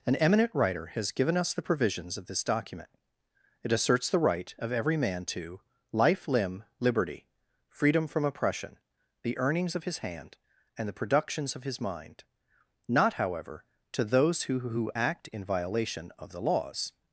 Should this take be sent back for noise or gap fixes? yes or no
no